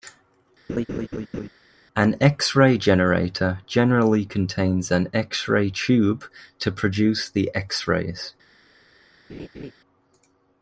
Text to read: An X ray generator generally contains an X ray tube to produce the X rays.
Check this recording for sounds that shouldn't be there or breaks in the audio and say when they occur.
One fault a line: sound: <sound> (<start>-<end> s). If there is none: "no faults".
sound: laugh (0.7-1.5 s)
sound: laugh (9.3-9.7 s)